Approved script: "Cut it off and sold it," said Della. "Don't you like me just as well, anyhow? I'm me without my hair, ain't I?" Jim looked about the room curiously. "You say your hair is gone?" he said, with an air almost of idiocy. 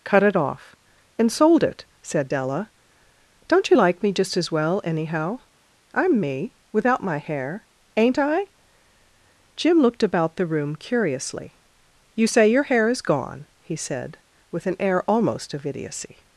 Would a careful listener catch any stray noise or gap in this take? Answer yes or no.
no